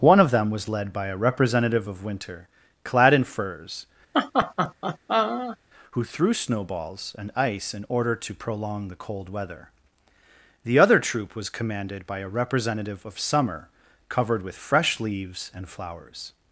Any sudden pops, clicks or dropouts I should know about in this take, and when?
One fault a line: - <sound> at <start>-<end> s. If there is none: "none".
- laugh at 4.1-5.6 s